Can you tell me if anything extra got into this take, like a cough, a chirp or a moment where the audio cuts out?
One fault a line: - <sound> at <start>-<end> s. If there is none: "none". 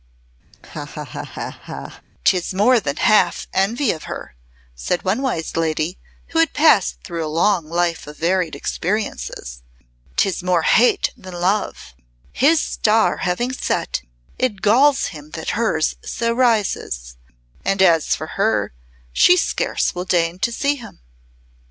- laugh at 0.5-2.0 s